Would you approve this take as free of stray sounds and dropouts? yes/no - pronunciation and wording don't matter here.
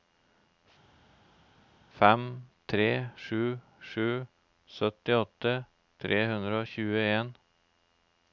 yes